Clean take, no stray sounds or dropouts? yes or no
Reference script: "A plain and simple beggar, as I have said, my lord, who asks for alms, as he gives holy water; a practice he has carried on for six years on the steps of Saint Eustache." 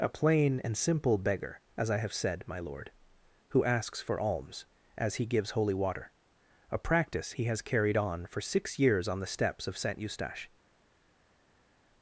yes